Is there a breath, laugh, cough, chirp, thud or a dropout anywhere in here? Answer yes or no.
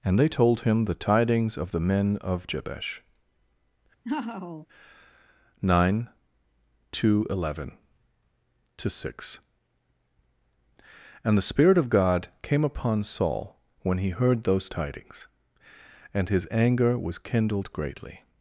yes